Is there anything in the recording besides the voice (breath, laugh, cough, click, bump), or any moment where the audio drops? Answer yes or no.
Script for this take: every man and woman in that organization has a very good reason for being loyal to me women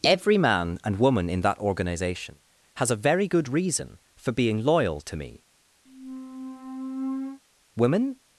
yes